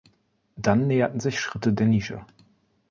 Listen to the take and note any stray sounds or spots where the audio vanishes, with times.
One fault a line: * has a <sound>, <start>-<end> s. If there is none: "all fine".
all fine